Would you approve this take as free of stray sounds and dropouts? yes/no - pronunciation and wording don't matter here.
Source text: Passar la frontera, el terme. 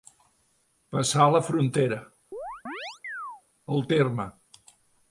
no